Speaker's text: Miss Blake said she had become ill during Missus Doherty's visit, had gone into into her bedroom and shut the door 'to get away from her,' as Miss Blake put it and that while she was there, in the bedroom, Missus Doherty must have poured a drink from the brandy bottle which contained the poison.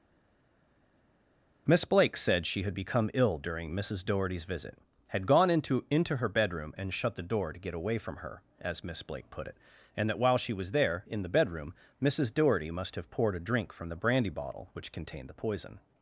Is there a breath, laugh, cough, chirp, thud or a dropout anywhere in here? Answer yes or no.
no